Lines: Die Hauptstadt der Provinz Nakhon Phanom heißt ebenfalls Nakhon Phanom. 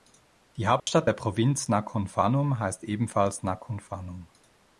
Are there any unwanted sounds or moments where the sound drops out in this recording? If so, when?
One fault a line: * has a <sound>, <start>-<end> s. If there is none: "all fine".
* has a dropout, 0.8-0.9 s